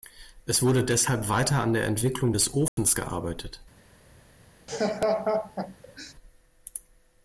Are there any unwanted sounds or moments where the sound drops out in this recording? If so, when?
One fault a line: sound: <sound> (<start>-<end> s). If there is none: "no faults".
sound: dropout (2.7-2.8 s)
sound: laugh (4.7-6.1 s)